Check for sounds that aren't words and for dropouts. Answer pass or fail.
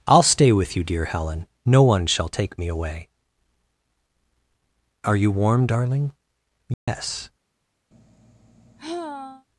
fail